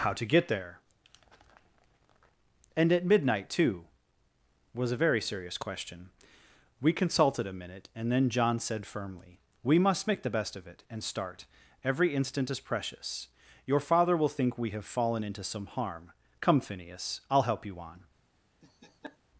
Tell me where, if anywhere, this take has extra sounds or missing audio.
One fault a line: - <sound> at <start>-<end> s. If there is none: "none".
- laugh at 18.6-19.2 s